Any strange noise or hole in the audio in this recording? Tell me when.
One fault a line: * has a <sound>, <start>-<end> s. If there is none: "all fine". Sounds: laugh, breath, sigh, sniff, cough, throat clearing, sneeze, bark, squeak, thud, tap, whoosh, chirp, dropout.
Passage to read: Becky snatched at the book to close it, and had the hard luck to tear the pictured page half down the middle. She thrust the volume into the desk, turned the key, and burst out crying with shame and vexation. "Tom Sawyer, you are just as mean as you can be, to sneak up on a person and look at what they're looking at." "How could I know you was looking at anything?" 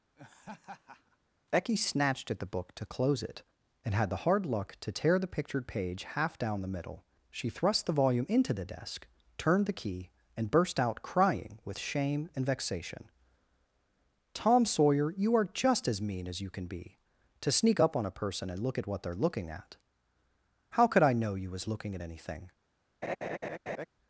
* has a laugh, 0.2-1.2 s
* has a laugh, 23.0-23.9 s